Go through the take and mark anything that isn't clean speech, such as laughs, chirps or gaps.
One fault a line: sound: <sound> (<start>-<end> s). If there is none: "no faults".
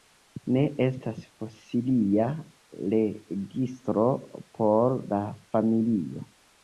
no faults